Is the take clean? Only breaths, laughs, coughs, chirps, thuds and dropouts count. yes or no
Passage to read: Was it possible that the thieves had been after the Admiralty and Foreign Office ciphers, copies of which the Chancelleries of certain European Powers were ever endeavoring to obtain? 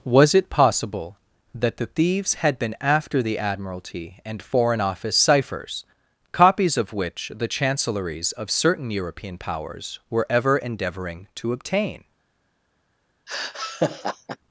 no